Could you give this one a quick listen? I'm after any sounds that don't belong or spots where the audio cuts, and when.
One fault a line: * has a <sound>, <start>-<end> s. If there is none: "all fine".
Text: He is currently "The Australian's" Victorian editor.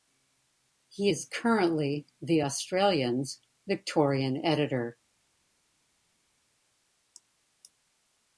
all fine